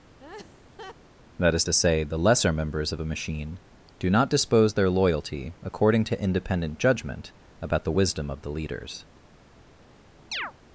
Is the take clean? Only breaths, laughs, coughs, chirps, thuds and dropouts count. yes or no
no